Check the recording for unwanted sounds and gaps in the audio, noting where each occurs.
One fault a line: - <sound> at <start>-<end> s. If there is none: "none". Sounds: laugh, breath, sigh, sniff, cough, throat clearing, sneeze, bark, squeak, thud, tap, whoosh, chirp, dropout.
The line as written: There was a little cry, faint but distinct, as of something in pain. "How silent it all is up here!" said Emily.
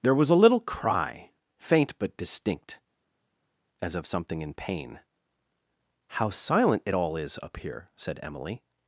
none